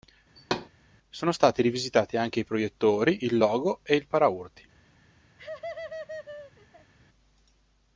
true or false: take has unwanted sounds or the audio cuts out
true